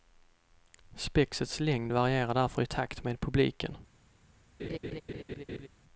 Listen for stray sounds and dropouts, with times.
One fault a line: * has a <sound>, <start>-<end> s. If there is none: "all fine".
* has a laugh, 4.6-5.7 s